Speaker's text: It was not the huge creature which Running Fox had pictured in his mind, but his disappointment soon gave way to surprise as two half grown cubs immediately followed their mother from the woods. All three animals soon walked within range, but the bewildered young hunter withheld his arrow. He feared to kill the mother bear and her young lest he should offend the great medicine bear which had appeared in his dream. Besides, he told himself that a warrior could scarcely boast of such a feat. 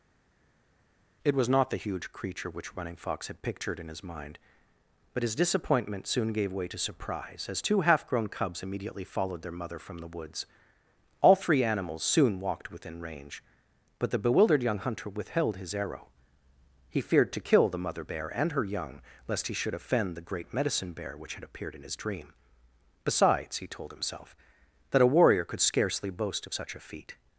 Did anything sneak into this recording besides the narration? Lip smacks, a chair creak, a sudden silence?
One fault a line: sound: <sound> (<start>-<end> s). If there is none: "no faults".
no faults